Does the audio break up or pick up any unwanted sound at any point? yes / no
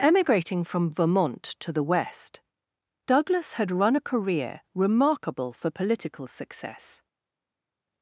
no